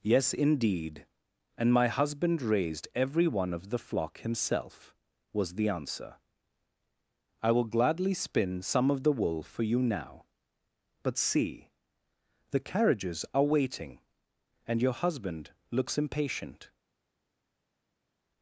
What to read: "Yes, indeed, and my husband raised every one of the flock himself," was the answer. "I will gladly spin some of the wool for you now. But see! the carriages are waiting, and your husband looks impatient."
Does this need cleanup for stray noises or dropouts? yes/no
no